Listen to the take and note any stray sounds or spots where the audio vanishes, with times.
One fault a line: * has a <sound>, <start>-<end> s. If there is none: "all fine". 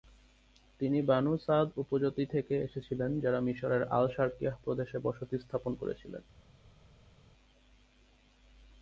all fine